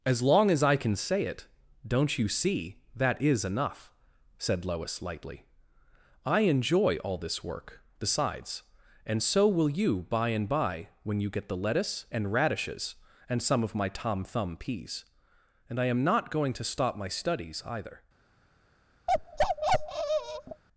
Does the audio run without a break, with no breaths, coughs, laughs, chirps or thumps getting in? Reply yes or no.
no